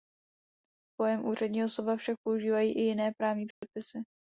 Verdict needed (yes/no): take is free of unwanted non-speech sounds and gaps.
no